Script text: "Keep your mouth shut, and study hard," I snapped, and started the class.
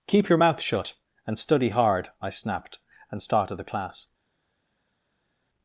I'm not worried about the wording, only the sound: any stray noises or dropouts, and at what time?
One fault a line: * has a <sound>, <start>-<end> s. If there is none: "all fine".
all fine